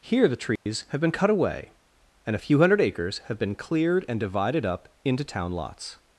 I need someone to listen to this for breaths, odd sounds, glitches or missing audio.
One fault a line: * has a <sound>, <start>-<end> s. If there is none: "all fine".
* has a dropout, 0.6-0.7 s